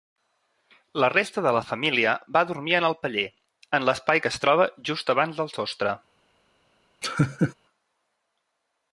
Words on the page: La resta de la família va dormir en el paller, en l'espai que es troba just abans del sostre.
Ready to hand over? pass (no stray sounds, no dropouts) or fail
fail